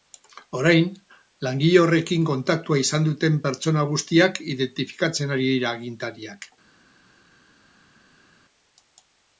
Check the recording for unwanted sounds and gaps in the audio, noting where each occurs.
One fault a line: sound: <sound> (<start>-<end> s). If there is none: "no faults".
no faults